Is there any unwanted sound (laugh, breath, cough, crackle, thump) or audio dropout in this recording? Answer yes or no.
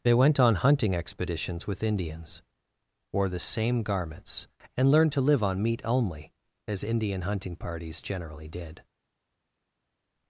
no